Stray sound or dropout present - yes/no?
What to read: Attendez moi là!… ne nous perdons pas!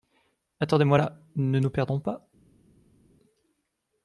no